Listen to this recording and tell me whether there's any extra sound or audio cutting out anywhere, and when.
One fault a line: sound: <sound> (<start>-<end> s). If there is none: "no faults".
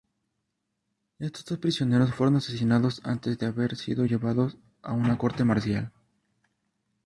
no faults